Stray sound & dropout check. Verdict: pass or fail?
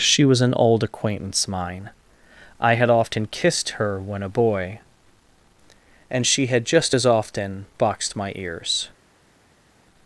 pass